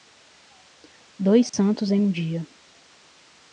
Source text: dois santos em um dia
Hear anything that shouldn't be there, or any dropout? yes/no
yes